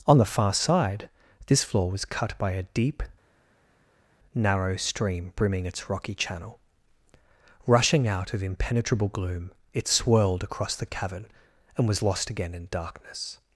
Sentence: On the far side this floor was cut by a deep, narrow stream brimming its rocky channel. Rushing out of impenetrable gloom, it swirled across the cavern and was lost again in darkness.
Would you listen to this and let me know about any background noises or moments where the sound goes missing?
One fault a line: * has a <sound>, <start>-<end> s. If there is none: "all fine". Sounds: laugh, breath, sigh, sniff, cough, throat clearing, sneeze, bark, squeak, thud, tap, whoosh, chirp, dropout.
all fine